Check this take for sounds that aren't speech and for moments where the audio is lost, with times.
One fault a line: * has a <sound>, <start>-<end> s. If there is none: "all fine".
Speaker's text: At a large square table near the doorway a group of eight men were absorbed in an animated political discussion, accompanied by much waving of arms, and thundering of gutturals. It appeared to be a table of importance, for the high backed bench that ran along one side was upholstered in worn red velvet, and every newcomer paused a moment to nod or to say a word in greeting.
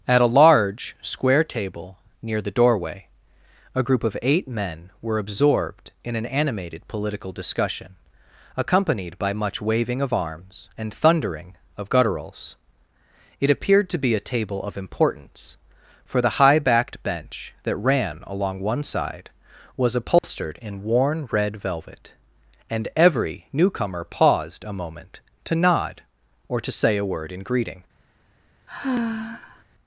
* has a dropout, 20.2-20.2 s
* has a sigh, 28.7-29.6 s